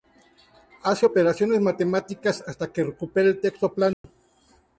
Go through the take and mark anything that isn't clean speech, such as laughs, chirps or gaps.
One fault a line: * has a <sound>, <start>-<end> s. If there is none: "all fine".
* has a dropout, 3.9-4.0 s